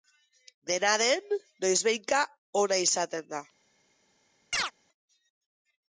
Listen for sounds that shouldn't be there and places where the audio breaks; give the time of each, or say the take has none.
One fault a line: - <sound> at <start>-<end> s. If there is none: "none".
- chirp at 4.5-4.7 s